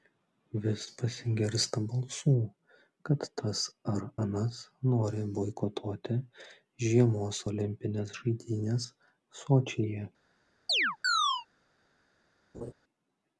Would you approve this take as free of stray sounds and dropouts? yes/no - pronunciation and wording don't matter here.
no